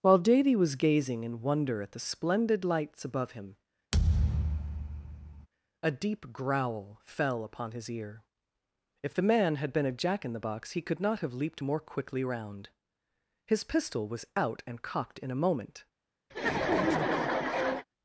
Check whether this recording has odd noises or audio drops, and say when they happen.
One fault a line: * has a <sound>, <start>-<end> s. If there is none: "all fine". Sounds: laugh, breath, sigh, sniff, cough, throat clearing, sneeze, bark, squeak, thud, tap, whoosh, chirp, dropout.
* has a thud, 3.9-5.5 s
* has a laugh, 16.3-17.9 s